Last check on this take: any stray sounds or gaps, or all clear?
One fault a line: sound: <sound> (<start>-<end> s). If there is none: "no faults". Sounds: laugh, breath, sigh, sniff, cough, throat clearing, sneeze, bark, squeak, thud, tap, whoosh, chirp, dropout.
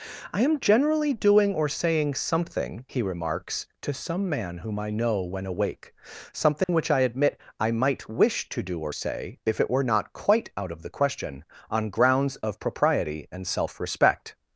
sound: dropout (6.6-6.7 s)